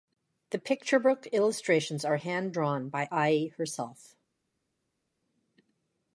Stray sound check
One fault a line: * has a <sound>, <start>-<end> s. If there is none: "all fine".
all fine